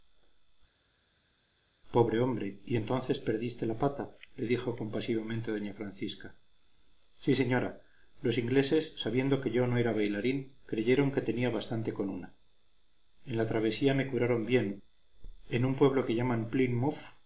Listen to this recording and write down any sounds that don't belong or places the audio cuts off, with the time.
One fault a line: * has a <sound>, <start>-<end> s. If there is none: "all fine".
all fine